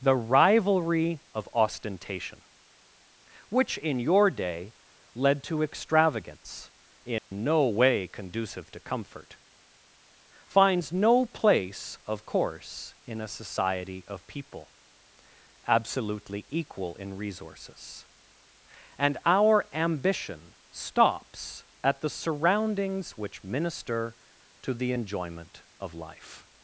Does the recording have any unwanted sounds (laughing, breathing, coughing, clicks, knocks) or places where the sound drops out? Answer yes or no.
yes